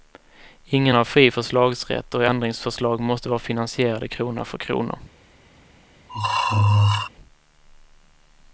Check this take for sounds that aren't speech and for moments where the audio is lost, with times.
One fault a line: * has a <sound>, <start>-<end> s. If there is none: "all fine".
* has a throat clearing, 6.1-7.1 s